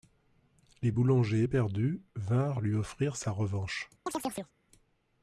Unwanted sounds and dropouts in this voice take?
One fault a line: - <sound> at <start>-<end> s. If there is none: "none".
- chirp at 4.1-4.5 s